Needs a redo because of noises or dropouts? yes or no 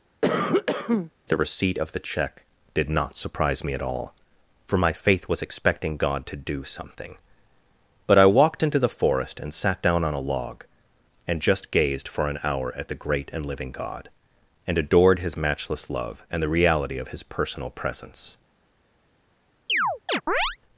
yes